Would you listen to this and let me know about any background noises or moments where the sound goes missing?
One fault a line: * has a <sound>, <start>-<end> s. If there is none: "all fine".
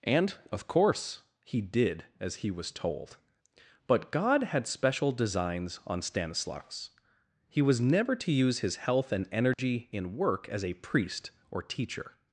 * has a dropout, 9.5-9.6 s